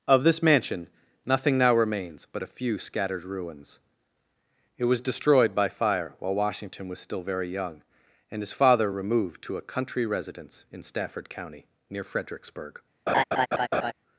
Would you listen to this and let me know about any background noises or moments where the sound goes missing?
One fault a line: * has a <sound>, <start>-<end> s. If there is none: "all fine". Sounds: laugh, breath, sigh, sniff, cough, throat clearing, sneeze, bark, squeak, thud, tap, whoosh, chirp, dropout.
* has a laugh, 13.1-13.9 s